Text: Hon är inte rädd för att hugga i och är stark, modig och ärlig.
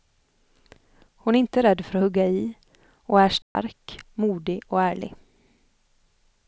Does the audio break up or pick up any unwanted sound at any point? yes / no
yes